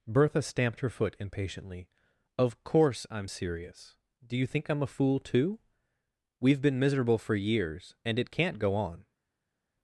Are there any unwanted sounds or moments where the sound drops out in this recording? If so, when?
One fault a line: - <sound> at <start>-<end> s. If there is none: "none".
none